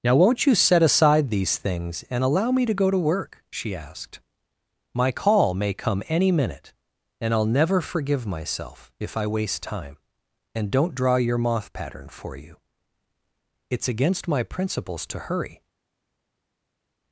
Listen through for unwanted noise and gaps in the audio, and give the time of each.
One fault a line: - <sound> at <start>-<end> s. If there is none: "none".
none